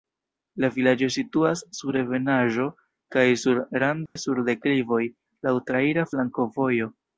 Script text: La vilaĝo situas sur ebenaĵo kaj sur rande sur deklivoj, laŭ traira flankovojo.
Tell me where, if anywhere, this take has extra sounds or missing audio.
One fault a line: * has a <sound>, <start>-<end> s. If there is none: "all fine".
* has a dropout, 4.1-4.2 s